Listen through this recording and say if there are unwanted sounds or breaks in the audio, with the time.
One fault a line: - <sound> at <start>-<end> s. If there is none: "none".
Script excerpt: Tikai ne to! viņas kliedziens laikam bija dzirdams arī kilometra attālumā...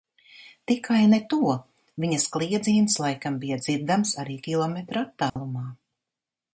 - dropout at 5.3-5.4 s